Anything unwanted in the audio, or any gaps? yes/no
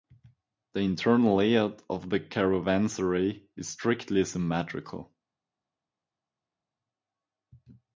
no